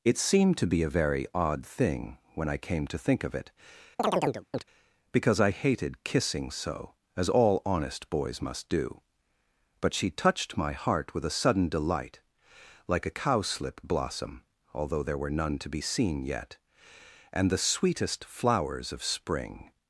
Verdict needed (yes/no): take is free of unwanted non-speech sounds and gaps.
no